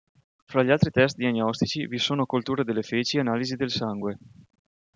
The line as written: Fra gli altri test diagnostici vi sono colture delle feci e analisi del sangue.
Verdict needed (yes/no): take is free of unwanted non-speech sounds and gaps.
yes